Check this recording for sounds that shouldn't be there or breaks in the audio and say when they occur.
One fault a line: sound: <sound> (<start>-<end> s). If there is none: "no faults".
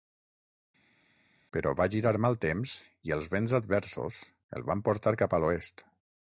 no faults